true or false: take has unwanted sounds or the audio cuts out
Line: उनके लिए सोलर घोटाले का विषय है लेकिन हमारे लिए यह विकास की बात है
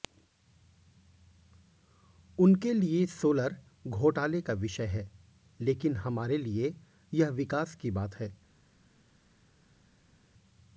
false